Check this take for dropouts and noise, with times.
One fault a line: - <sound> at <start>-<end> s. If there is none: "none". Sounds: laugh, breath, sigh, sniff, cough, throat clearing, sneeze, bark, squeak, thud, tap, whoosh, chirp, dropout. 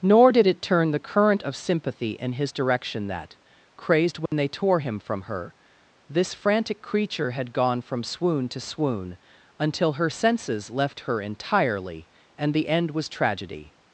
- dropout at 4.3-4.3 s